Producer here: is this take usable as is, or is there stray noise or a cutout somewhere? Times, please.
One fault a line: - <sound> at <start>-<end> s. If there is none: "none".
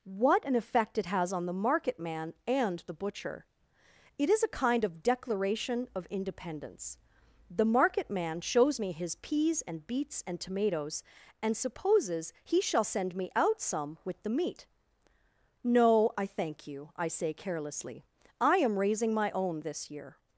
none